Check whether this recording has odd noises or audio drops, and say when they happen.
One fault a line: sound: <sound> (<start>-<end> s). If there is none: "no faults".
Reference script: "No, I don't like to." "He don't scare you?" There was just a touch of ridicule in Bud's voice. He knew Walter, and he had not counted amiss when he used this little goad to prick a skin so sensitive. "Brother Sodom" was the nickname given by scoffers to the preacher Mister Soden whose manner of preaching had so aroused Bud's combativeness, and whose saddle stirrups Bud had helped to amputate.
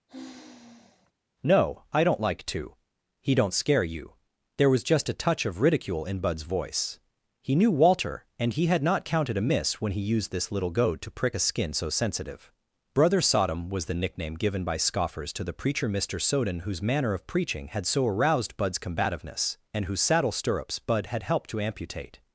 sound: sigh (0.1-1.1 s)